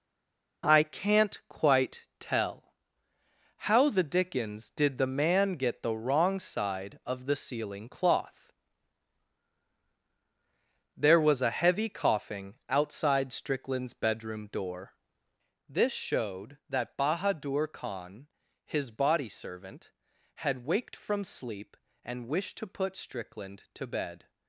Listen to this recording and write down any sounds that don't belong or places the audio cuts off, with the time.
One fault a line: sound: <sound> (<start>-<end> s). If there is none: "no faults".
no faults